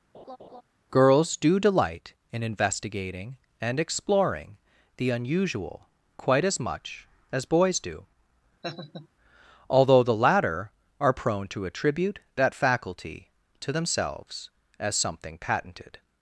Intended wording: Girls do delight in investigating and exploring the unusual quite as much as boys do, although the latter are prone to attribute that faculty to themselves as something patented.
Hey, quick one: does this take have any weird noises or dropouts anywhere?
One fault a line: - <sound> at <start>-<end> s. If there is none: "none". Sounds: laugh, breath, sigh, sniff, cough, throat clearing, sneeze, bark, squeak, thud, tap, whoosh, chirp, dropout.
- laugh at 0.1-0.6 s
- laugh at 8.6-9.1 s